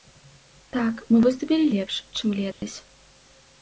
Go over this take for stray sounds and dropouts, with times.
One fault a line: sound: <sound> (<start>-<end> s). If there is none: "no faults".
sound: dropout (2.5-2.6 s)